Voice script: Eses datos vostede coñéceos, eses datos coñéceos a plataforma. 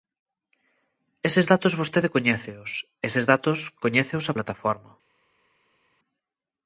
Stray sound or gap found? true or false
false